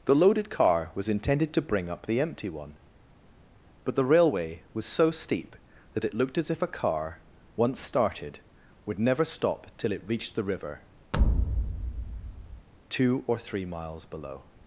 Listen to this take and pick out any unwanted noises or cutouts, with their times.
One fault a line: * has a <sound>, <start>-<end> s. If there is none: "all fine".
* has a thud, 11.1-12.7 s